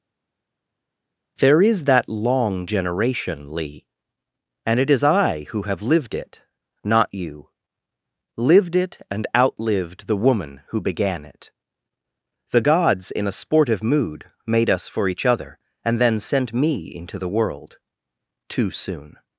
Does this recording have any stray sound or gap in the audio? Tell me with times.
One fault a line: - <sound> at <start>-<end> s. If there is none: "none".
none